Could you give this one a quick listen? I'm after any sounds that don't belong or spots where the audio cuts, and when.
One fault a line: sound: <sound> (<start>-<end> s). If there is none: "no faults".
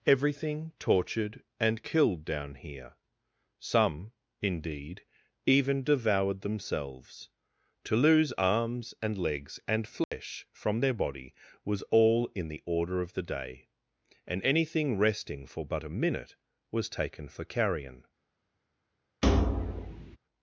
sound: dropout (10.0-10.1 s)
sound: thud (19.2-20.2 s)